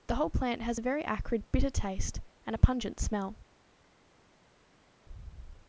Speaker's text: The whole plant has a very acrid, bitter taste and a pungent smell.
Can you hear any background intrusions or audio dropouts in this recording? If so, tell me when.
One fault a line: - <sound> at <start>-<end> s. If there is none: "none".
none